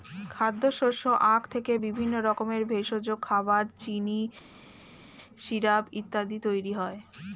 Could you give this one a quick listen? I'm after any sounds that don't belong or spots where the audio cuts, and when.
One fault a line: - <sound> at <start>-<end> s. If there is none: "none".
none